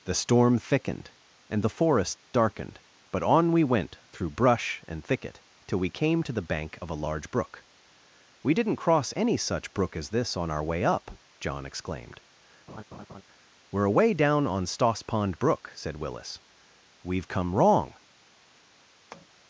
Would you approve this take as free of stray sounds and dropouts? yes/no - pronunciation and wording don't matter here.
no